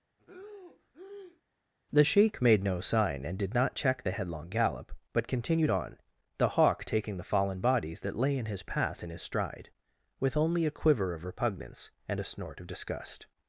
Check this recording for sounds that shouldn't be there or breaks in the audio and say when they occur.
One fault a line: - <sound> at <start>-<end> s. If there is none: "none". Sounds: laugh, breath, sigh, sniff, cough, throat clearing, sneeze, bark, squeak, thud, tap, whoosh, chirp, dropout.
- breath at 0.2-1.4 s